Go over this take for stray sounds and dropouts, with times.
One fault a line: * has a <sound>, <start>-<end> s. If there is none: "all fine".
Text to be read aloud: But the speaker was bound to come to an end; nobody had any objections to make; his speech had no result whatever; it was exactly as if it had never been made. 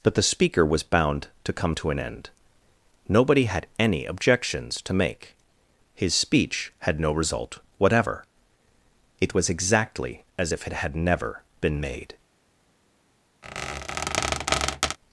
* has a squeak, 13.4-15.0 s